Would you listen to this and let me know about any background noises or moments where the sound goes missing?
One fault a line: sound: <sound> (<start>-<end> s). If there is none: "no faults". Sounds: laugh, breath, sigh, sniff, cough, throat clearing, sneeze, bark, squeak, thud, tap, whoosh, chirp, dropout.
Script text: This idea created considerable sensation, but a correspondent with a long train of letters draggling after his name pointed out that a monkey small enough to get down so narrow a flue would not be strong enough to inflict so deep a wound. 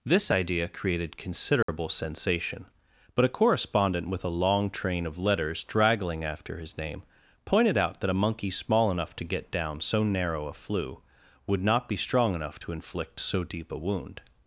sound: dropout (1.6-1.7 s)